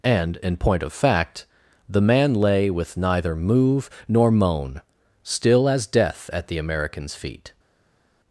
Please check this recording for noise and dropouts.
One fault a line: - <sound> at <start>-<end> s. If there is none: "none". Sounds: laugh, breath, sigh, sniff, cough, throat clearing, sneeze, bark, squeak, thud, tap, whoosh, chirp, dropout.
none